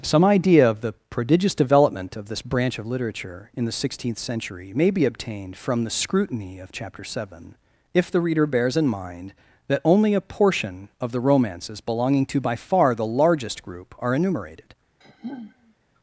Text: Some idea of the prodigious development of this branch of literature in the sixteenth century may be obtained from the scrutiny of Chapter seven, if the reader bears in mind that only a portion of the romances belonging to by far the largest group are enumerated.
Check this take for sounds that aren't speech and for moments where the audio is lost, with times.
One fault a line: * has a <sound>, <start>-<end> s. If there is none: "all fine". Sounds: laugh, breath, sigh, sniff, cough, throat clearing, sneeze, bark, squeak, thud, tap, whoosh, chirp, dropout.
* has a sigh, 15.0-15.7 s